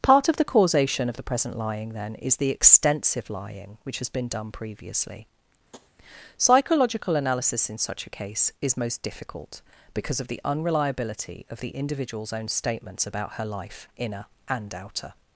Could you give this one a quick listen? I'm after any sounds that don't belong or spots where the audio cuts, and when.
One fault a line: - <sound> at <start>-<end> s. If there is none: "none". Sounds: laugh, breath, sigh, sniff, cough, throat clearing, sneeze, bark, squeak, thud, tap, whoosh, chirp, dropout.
- tap at 5.7-5.9 s